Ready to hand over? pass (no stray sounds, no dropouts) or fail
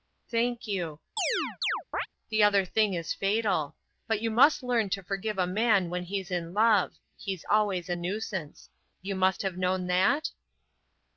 fail